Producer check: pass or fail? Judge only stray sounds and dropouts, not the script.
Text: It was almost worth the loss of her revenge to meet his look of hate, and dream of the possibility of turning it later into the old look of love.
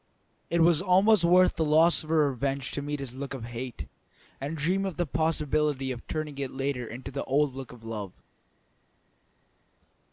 pass